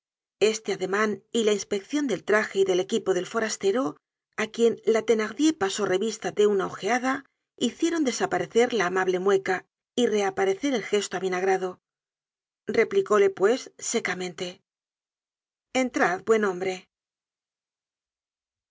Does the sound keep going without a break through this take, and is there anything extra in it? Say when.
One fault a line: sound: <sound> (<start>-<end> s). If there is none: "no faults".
no faults